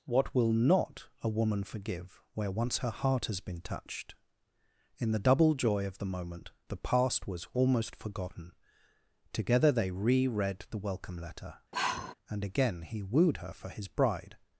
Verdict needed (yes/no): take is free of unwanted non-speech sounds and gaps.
no